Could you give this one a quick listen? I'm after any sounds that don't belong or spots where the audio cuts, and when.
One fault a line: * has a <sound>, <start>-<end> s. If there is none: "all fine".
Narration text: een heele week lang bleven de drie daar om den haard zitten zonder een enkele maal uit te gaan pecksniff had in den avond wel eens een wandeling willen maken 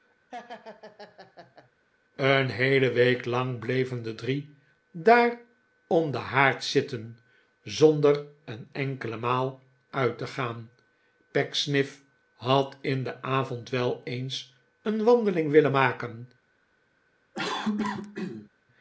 * has a laugh, 0.3-1.7 s
* has a cough, 17.3-18.5 s